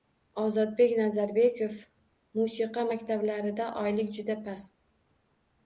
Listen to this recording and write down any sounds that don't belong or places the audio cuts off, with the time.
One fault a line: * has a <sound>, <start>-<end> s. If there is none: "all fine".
all fine